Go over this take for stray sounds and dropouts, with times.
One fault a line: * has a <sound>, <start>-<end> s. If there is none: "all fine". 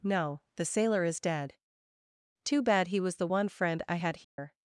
* has a dropout, 4.2-4.4 s